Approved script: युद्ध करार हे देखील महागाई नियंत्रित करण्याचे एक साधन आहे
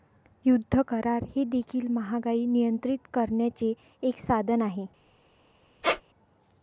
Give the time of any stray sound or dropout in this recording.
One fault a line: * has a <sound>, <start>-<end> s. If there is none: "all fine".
* has a squeak, 5.8-6.0 s